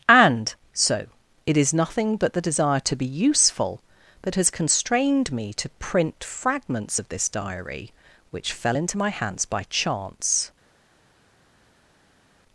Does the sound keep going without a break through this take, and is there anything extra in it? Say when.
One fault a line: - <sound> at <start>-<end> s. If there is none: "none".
none